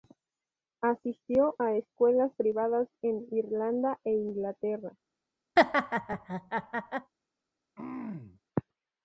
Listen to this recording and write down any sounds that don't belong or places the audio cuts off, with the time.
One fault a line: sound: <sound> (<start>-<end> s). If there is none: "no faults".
sound: laugh (5.6-7.1 s)
sound: throat clearing (7.8-8.4 s)